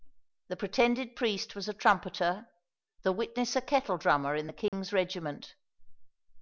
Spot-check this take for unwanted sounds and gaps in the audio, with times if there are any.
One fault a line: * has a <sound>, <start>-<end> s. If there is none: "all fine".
* has a dropout, 4.7-4.7 s